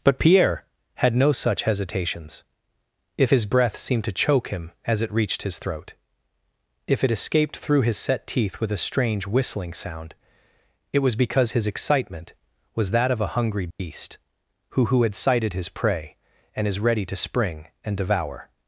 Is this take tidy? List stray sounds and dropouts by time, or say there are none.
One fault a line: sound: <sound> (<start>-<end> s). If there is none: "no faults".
sound: dropout (13.7-13.8 s)